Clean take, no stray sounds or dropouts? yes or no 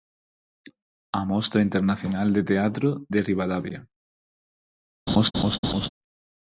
no